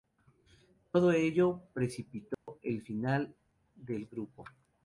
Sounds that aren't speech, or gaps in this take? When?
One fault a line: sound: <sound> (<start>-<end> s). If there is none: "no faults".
sound: dropout (2.3-2.5 s)